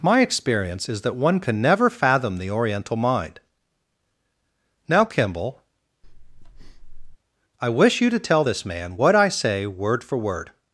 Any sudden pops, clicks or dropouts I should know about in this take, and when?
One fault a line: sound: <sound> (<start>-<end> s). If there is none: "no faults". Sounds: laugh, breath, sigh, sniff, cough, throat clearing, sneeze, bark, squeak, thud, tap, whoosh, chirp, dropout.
sound: breath (6.0-7.2 s)